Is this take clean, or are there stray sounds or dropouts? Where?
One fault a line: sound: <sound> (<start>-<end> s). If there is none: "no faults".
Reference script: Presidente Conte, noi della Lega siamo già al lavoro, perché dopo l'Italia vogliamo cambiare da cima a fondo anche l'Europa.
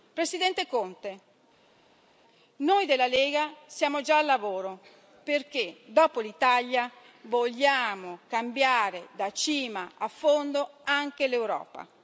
no faults